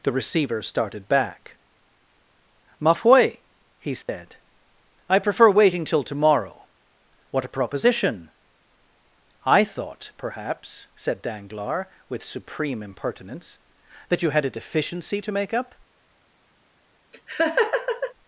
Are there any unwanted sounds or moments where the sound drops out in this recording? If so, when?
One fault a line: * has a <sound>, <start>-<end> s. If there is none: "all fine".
* has a dropout, 4.0-4.1 s
* has a laugh, 17.1-18.1 s